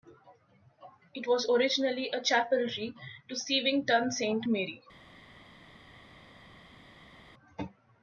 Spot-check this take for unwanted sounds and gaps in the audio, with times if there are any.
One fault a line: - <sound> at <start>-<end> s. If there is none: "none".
none